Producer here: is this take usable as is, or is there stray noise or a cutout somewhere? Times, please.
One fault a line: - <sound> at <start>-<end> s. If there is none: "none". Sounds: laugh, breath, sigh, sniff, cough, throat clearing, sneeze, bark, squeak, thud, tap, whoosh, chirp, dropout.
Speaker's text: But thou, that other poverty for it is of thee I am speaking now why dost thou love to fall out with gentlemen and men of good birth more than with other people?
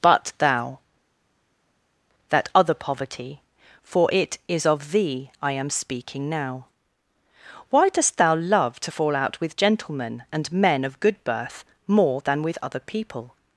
none